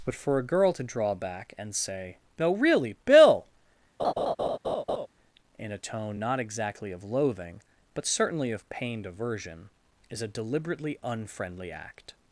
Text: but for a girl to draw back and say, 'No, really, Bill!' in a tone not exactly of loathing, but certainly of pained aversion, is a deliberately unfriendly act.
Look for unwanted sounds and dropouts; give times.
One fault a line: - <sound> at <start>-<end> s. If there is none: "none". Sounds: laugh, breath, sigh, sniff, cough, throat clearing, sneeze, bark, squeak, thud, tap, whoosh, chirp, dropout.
- laugh at 4.0-5.1 s